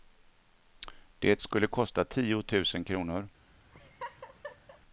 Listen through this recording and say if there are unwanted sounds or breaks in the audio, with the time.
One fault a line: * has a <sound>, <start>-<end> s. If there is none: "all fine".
* has a laugh, 3.7-4.8 s